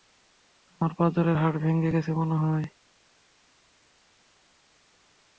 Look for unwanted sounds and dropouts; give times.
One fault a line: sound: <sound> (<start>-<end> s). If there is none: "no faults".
no faults